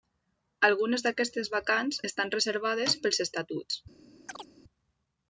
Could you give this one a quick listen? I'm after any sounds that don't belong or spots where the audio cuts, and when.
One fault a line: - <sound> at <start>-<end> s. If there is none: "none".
- chirp at 4.3-4.5 s